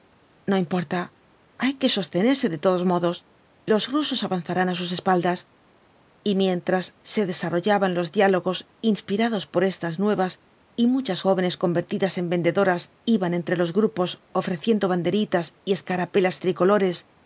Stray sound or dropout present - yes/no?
no